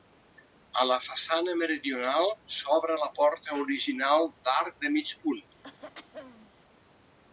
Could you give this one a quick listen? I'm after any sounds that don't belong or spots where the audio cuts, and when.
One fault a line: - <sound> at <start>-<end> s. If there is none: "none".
- throat clearing at 5.6-6.5 s